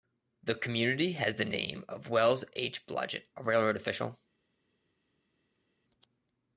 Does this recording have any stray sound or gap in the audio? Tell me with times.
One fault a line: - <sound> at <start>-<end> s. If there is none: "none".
none